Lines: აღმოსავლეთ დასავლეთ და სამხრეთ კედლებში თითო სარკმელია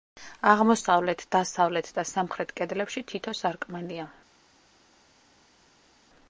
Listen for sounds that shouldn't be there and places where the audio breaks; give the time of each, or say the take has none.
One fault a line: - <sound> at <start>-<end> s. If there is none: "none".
none